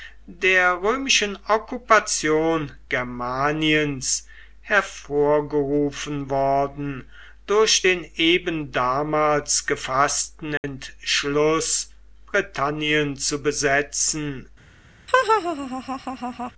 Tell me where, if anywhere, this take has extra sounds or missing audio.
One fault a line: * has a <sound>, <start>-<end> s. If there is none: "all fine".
* has a dropout, 10.6-10.6 s
* has a laugh, 15.1-16.5 s